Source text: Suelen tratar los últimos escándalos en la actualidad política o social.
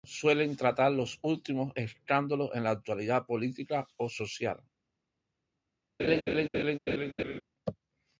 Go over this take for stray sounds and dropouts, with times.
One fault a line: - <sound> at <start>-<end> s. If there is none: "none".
- laugh at 6.0-7.4 s